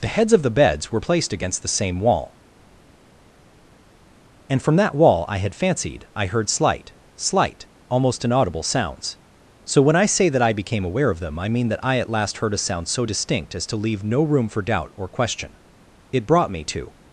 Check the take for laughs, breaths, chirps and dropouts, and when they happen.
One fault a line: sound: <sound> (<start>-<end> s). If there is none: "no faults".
no faults